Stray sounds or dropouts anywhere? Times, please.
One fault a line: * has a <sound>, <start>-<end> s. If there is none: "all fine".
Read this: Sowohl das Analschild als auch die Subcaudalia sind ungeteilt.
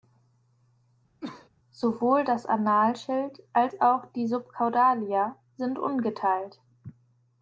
* has a cough, 1.2-1.5 s